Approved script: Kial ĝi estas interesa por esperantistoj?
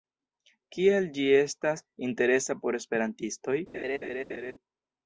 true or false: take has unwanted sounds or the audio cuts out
true